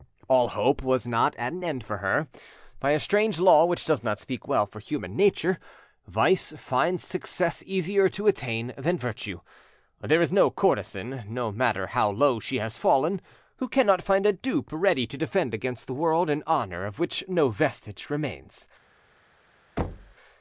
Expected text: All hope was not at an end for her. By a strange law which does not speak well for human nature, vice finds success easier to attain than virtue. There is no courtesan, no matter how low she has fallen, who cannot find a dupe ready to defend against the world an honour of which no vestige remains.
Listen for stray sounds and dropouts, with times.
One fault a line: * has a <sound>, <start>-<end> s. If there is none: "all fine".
* has a thud, 19.8-20.1 s